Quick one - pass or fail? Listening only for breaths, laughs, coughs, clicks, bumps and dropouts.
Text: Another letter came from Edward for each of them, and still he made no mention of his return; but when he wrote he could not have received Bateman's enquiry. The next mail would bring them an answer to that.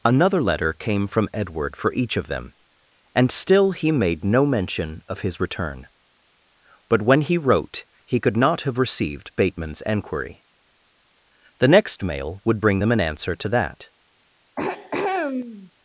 fail